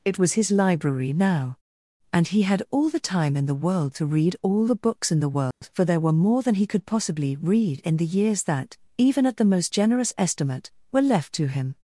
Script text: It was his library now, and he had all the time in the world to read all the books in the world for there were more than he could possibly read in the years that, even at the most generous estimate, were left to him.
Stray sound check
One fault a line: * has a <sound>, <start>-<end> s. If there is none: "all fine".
* has a dropout, 5.5-5.6 s